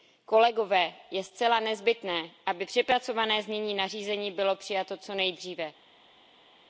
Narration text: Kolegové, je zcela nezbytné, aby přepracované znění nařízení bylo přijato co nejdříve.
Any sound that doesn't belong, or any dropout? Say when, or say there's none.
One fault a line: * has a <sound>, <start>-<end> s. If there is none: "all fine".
all fine